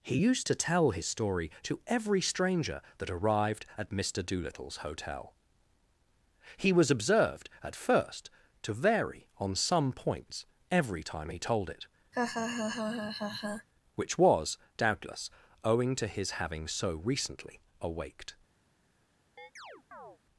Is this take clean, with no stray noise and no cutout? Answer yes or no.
no